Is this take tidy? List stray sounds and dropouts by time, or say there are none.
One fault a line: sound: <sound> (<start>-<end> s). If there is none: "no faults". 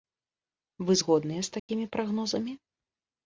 sound: dropout (1.6-1.7 s)